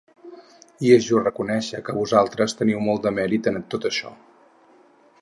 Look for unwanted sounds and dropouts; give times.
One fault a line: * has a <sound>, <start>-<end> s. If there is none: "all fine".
all fine